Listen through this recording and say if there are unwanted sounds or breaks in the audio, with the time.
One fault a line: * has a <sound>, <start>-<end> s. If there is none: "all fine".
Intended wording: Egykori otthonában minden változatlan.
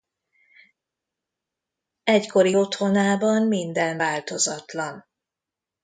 all fine